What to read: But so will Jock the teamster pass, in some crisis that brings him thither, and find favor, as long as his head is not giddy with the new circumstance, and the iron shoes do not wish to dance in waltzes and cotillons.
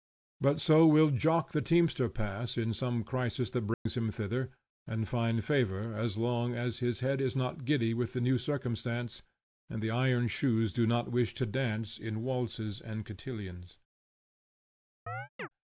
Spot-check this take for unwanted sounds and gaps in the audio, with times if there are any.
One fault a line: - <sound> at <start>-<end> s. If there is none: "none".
- dropout at 3.7-3.9 s
- chirp at 15.1-15.5 s